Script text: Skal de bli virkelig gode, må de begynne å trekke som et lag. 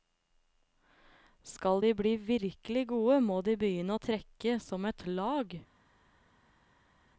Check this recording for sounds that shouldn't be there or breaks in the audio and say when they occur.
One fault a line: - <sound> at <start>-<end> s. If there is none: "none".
none